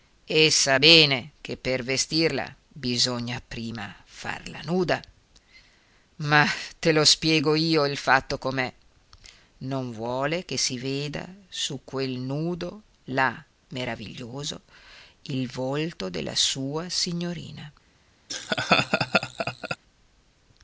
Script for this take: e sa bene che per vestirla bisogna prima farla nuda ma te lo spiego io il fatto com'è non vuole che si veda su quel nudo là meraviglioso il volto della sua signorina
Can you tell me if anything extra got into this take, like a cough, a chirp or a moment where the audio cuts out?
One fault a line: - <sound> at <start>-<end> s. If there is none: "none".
- laugh at 18.3-19.8 s